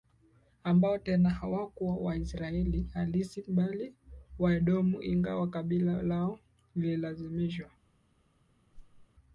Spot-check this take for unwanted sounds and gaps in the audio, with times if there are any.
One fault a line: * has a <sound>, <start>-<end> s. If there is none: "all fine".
* has a whoosh, 8.7-9.1 s